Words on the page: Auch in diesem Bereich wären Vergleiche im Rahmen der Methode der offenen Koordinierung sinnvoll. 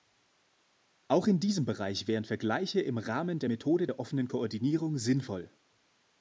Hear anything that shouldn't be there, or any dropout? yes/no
no